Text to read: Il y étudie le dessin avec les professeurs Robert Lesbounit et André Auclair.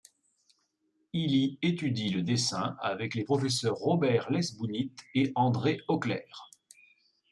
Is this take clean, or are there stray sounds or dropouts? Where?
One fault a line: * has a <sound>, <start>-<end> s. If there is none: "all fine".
all fine